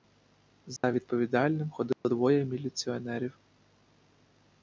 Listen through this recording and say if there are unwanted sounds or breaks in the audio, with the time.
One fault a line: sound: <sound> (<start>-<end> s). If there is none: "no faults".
sound: dropout (0.8-0.8 s)
sound: dropout (1.9-2.0 s)